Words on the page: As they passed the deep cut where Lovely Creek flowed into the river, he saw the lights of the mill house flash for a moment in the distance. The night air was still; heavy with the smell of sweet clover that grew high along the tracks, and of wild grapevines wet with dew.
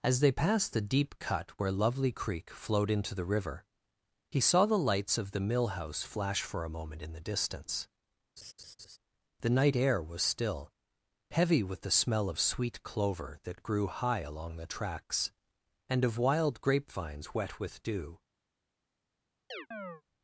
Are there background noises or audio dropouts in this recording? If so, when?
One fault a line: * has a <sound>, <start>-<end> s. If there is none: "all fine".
* has a laugh, 8.4-9.0 s
* has a chirp, 19.5-20.0 s